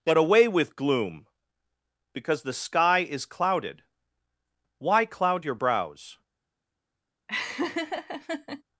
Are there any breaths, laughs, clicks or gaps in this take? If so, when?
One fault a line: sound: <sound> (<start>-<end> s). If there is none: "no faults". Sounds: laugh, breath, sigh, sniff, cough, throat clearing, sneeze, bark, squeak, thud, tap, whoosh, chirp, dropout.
sound: laugh (7.3-8.6 s)